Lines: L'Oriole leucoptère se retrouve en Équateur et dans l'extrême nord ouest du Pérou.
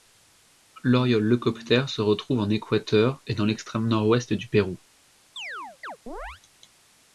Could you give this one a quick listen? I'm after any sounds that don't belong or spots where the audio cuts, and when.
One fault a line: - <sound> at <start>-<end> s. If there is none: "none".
- chirp at 5.4-6.4 s